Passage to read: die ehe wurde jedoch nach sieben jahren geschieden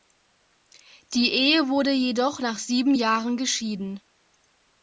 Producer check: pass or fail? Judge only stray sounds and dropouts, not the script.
pass